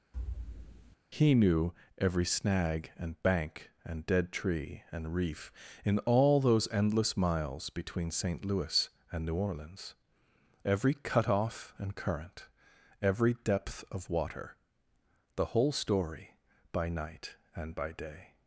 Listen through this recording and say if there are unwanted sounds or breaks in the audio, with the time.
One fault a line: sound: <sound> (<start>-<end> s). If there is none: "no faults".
sound: thud (0.1-1.0 s)